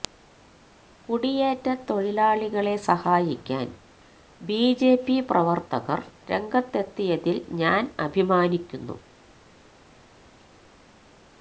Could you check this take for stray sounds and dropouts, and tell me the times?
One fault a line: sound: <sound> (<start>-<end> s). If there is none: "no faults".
no faults